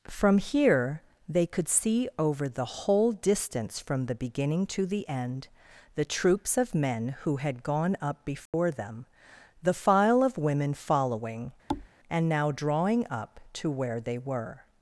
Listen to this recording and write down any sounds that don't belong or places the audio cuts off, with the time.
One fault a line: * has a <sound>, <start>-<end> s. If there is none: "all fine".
* has a dropout, 8.5-8.5 s
* has a thud, 11.7-11.9 s